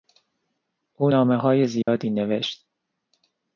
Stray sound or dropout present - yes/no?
yes